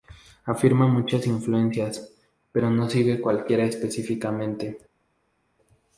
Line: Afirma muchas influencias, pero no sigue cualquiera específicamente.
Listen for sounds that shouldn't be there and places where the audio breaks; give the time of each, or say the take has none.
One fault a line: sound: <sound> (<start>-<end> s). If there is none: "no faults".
no faults